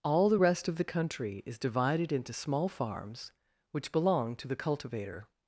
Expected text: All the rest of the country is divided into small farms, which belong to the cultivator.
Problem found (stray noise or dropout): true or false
false